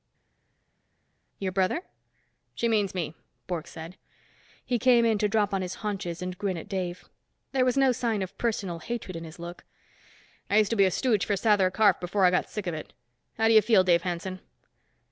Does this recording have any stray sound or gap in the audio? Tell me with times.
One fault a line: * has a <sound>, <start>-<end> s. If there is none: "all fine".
all fine